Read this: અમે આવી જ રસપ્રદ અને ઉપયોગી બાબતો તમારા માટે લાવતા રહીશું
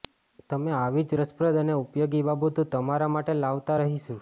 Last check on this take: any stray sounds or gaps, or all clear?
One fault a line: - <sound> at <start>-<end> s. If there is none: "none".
none